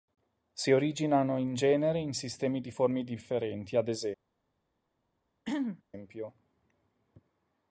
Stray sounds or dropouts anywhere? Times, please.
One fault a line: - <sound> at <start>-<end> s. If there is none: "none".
- throat clearing at 5.4-5.8 s